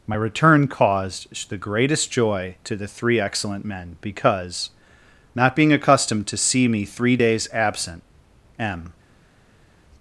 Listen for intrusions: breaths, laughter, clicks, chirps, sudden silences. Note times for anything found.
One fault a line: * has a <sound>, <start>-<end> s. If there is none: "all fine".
all fine